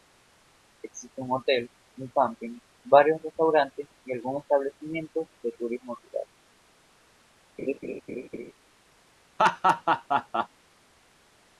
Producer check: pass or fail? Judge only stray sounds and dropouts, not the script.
fail